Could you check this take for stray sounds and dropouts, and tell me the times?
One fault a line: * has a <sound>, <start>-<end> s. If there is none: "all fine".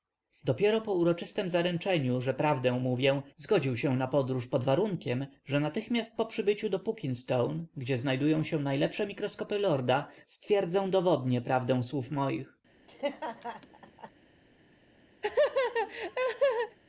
* has a laugh, 12.9-14.1 s
* has a laugh, 15.2-16.8 s